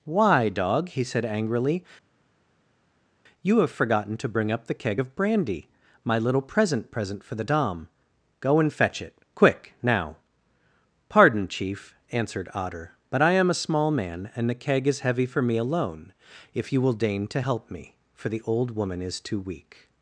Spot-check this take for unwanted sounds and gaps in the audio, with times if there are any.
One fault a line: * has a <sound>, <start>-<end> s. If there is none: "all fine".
all fine